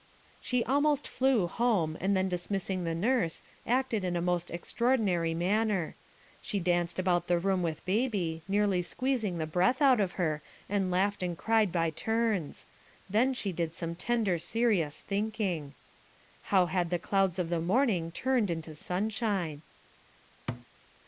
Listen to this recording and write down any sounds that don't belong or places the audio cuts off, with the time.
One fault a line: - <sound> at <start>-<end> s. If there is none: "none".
- thud at 20.5-20.7 s